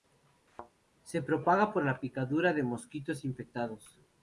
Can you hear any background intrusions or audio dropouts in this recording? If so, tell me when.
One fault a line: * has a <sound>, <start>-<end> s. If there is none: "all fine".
* has a thud, 0.5-0.7 s